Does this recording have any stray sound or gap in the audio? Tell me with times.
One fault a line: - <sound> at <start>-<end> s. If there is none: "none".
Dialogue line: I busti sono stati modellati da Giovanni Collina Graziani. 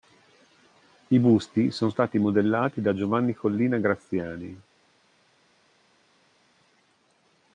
none